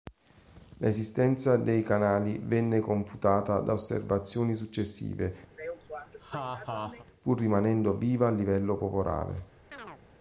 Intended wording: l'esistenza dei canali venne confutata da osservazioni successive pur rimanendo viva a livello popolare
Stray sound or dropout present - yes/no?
yes